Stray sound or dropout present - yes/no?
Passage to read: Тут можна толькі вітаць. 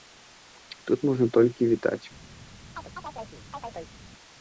yes